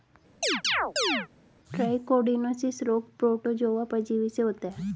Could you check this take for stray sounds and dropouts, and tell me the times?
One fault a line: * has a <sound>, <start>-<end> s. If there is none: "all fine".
* has a chirp, 0.4-1.3 s